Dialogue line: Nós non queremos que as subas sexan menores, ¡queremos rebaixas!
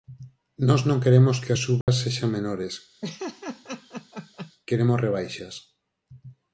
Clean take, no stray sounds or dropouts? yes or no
no